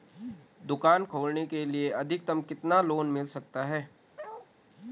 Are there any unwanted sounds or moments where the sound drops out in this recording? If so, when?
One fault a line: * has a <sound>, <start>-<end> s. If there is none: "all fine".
* has a bark, 4.2-4.5 s